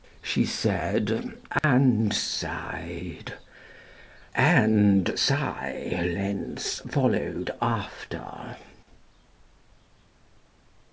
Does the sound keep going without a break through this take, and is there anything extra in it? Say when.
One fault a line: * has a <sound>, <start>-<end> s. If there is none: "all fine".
* has a dropout, 1.6-1.6 s